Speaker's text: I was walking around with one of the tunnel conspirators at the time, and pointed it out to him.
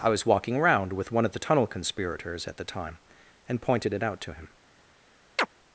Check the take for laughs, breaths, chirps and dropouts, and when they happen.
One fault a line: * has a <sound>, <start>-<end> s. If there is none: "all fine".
* has a chirp, 5.4-5.5 s